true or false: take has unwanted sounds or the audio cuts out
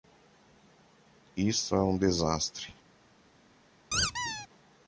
true